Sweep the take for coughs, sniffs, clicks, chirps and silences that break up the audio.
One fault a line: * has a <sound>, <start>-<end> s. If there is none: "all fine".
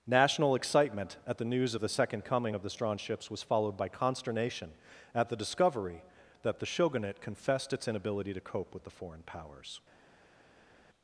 all fine